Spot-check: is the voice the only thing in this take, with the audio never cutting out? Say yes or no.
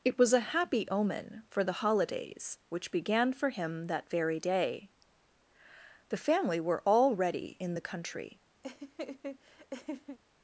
no